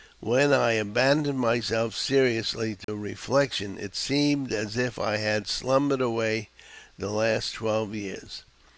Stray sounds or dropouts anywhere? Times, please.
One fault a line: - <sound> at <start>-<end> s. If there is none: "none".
- dropout at 2.8-2.9 s